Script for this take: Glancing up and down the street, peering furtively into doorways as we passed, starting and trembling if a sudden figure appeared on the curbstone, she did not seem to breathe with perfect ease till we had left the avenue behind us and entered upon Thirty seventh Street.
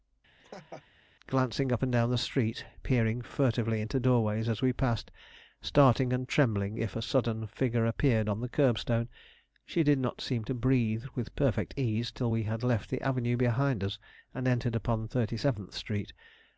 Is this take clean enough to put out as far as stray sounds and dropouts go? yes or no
no